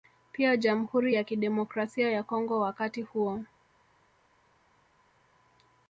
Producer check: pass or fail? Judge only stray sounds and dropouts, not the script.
pass